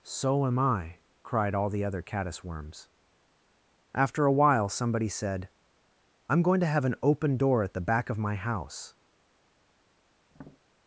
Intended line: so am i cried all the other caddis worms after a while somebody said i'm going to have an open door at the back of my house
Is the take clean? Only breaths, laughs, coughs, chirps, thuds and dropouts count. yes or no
no